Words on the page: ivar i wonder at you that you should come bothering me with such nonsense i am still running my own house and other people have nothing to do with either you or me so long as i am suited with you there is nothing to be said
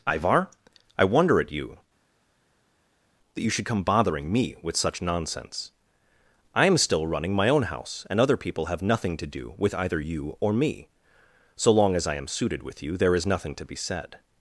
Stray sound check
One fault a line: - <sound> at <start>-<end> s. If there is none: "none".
none